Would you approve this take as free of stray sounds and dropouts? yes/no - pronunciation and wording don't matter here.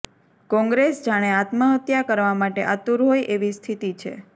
yes